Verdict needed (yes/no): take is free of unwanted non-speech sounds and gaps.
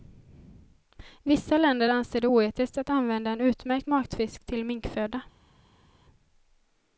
yes